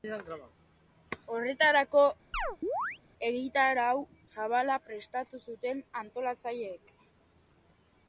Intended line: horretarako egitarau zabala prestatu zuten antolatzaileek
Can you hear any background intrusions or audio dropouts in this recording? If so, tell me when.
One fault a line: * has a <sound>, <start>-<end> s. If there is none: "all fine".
* has a chirp, 2.3-3.0 s